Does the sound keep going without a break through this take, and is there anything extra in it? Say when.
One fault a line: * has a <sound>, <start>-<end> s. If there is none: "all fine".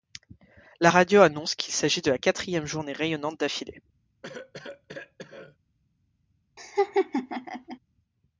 * has a cough, 4.2-5.6 s
* has a laugh, 6.6-7.8 s